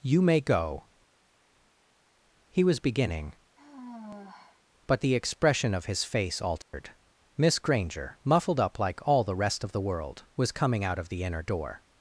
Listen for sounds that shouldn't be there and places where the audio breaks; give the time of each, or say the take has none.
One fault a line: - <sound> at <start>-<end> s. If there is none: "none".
- sigh at 3.6-4.6 s
- dropout at 6.6-6.7 s